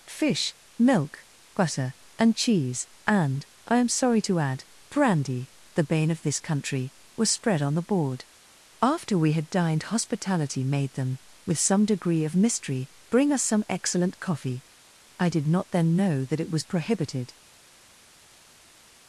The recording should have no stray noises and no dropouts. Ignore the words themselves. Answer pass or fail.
pass